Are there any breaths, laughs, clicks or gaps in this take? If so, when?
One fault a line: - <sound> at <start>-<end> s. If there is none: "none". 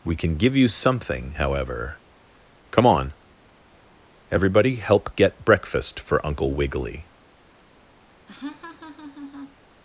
- laugh at 8.3-9.6 s